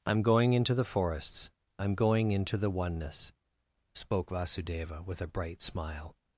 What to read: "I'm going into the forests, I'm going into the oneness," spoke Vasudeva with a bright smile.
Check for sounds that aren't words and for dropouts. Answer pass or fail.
pass